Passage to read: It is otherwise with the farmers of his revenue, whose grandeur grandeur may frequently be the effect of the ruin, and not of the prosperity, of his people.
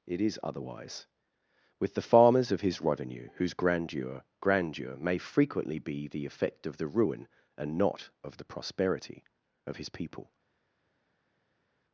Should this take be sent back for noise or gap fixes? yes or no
no